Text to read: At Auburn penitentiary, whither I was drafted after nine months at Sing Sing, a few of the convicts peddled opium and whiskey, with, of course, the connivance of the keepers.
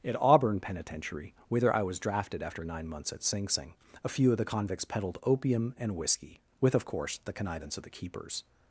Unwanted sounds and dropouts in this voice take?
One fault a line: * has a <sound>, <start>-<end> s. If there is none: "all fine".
all fine